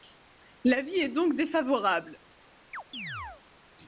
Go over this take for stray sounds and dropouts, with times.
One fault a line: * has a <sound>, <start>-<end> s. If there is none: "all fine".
* has a chirp, 2.7-3.4 s